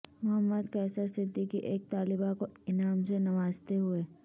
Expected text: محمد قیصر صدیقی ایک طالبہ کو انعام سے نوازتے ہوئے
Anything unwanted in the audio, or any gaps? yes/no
no